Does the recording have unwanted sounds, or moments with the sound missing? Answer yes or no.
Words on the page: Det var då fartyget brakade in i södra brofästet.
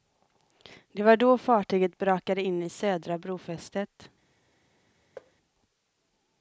yes